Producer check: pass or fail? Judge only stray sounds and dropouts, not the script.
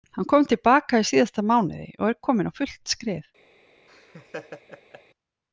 fail